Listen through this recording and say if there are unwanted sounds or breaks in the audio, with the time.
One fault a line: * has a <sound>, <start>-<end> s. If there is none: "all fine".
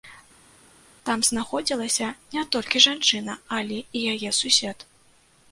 all fine